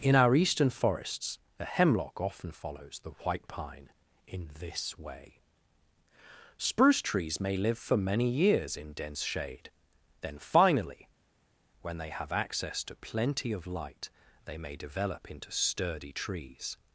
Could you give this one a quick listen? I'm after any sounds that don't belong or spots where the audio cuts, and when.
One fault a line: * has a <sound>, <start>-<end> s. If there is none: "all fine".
all fine